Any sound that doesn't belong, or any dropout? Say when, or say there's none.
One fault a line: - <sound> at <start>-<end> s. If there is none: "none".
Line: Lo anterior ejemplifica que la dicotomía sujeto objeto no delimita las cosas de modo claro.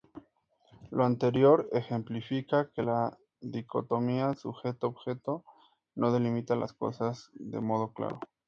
none